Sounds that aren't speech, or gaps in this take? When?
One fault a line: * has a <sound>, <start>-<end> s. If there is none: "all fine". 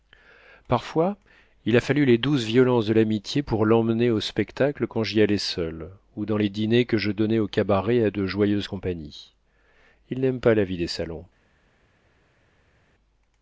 all fine